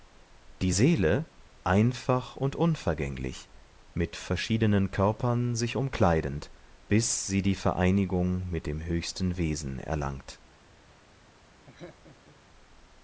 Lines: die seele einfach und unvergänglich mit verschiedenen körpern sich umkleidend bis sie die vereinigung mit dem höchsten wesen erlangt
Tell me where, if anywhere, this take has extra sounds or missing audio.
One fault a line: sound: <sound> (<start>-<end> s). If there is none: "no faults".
sound: laugh (11.7-12.4 s)